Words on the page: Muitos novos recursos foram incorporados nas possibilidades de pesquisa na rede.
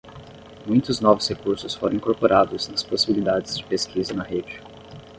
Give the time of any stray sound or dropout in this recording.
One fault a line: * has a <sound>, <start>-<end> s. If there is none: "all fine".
all fine